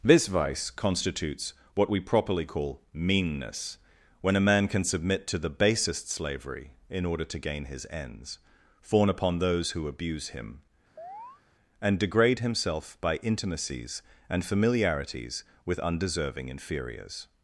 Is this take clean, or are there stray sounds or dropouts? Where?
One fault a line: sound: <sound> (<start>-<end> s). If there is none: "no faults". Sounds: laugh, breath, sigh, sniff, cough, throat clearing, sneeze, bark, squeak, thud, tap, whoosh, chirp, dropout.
sound: chirp (11.0-11.4 s)